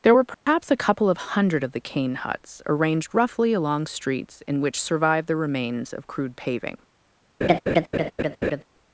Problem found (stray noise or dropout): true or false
true